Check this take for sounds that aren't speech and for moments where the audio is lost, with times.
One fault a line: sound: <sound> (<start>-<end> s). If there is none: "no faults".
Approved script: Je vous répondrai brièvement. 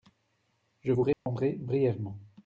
sound: dropout (1.1-1.3 s)